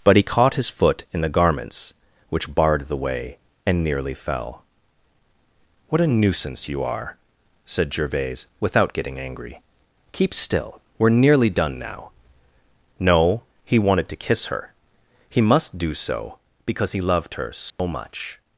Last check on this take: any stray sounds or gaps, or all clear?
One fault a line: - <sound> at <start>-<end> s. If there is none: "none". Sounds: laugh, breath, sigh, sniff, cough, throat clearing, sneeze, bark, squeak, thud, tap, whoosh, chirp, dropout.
- dropout at 17.7-17.8 s